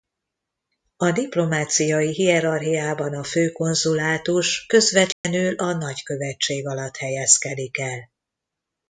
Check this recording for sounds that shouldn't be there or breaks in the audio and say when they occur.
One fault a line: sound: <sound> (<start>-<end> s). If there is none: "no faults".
sound: dropout (5.1-5.2 s)